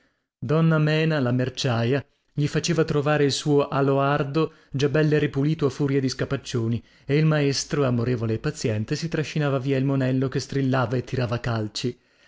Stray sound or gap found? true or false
false